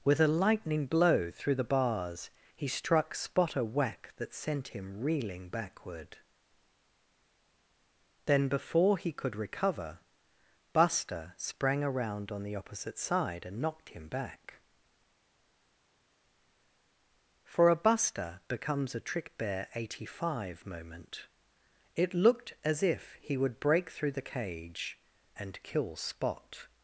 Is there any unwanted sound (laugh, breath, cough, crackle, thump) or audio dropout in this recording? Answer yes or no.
no